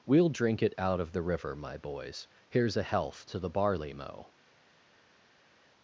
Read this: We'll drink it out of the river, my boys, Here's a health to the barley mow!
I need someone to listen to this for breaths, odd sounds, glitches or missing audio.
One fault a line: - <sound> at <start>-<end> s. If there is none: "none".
none